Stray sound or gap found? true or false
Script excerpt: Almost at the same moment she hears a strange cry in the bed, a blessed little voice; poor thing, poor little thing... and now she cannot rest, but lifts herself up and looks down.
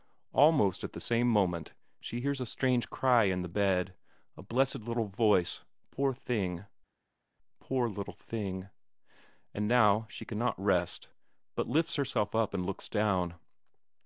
false